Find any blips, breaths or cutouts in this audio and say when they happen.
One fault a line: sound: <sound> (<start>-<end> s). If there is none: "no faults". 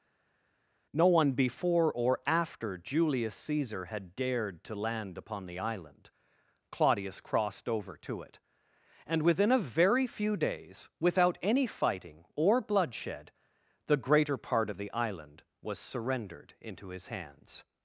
no faults